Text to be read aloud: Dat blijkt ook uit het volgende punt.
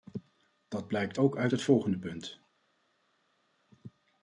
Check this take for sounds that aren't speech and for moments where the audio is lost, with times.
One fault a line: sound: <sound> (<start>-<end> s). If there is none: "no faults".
no faults